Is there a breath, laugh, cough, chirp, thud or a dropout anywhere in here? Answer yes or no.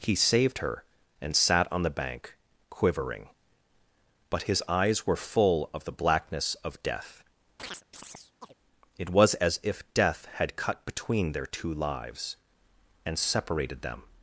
yes